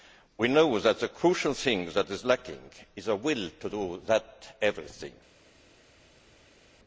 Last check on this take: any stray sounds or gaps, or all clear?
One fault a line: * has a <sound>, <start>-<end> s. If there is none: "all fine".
all fine